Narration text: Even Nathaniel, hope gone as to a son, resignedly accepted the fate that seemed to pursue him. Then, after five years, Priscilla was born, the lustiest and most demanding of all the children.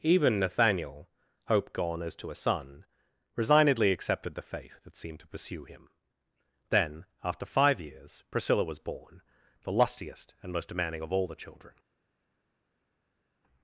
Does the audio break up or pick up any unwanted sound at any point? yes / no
no